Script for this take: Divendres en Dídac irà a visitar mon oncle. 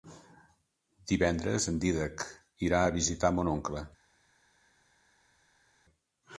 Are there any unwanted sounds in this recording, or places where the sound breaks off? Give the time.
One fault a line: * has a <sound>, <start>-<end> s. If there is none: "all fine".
all fine